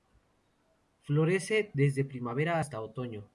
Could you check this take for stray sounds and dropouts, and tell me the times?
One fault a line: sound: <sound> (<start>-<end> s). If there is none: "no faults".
no faults